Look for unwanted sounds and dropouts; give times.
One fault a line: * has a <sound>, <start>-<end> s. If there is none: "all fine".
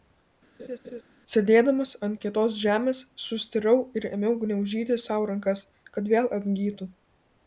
* has a laugh, 0.6-1.0 s